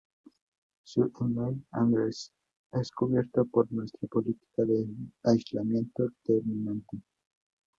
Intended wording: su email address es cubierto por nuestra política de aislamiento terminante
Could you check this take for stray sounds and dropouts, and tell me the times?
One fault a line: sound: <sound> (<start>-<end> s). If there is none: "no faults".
no faults